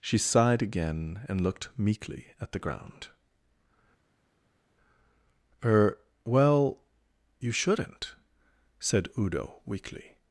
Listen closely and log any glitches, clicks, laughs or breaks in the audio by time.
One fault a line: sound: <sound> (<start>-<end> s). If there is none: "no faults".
no faults